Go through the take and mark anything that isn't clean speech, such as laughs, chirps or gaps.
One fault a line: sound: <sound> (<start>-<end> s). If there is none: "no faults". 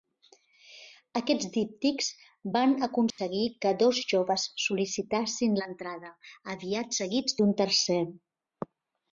sound: dropout (3.1-3.2 s)